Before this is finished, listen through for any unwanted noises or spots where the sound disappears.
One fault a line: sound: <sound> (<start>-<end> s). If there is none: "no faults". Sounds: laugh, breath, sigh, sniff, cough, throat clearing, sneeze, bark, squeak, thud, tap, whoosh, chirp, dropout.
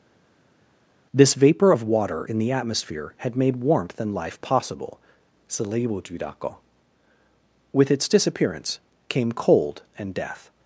no faults